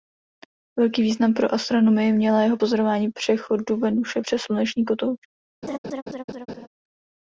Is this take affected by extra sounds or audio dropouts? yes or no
yes